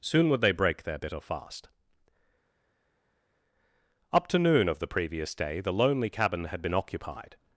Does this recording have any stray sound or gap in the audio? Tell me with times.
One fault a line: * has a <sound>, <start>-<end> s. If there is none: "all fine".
all fine